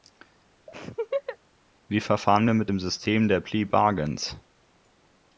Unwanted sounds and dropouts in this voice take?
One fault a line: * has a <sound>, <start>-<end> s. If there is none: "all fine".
* has a laugh, 0.7-1.4 s